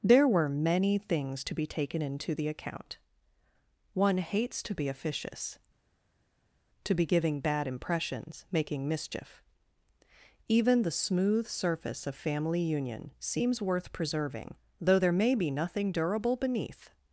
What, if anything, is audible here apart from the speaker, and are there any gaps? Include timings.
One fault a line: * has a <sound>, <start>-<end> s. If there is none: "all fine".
all fine